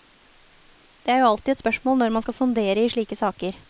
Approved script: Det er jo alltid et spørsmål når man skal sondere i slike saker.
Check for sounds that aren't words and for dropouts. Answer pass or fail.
pass